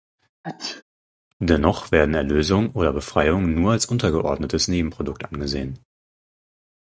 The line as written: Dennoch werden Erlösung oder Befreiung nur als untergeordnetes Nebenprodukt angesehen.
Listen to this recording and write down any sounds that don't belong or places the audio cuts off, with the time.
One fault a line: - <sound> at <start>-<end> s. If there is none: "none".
- sneeze at 0.4-0.8 s